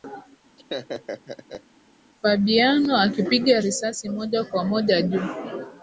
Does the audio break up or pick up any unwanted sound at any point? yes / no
yes